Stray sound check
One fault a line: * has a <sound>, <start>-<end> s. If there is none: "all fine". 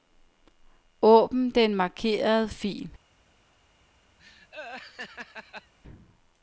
* has a laugh, 4.2-5.7 s